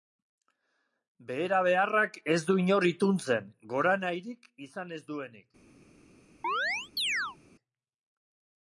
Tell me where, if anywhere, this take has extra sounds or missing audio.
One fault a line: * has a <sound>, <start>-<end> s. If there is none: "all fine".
* has a chirp, 6.4-7.4 s